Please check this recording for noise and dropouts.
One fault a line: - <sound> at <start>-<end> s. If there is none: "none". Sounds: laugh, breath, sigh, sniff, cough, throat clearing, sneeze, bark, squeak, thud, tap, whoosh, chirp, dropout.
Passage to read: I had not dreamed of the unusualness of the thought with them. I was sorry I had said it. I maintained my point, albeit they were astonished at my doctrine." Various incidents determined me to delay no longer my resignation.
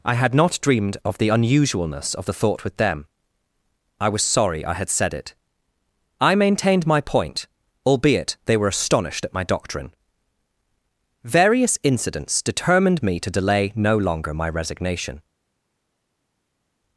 none